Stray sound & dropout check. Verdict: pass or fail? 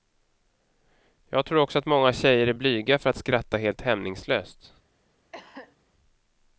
fail